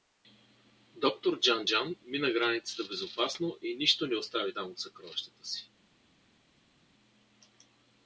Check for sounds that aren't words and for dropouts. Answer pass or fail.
pass